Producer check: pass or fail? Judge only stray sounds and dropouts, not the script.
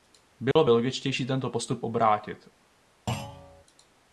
fail